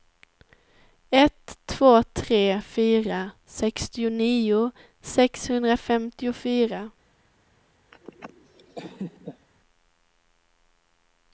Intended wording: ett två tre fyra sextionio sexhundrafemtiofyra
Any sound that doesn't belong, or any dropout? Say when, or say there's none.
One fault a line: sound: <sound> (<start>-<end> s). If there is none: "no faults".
sound: laugh (7.9-9.5 s)